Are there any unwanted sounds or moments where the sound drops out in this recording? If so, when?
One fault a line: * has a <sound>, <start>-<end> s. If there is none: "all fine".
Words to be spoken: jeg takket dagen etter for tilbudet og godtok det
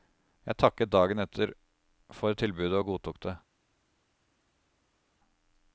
all fine